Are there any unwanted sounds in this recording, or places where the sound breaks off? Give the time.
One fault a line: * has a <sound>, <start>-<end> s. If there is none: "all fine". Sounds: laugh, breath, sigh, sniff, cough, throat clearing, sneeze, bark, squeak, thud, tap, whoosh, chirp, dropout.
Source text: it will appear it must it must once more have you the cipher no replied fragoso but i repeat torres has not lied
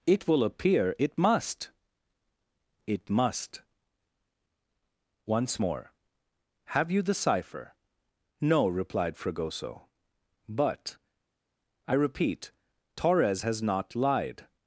all fine